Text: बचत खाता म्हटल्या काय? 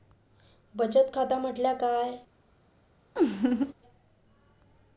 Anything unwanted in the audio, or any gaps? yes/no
yes